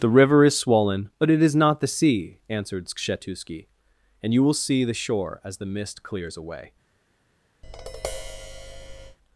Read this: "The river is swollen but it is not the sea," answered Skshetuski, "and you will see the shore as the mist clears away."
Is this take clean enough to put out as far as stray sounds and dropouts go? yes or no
no